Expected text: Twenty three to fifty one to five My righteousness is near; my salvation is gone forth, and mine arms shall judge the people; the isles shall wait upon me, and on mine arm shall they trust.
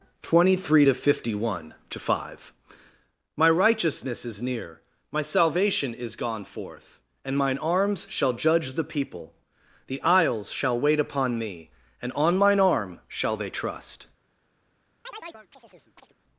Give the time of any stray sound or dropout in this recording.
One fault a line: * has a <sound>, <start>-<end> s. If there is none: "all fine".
* has a chirp, 15.0-16.1 s